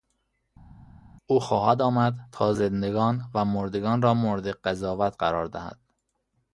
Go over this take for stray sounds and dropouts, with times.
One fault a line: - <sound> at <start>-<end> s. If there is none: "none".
none